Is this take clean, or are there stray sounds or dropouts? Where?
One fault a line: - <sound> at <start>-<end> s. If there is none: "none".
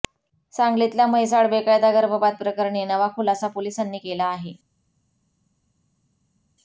none